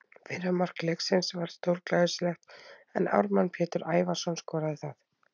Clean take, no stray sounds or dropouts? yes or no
yes